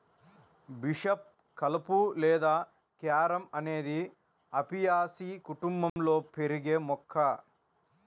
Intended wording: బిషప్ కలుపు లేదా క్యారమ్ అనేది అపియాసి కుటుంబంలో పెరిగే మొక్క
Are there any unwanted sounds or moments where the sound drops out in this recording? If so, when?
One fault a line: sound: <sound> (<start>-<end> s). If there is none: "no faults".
sound: dropout (5.9-6.0 s)